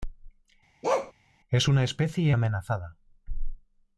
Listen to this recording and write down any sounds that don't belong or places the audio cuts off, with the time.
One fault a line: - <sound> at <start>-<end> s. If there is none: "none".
- bark at 0.8-1.1 s